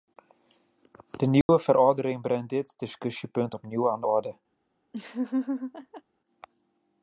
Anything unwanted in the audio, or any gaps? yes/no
yes